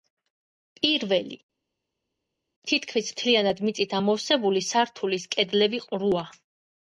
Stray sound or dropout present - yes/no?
no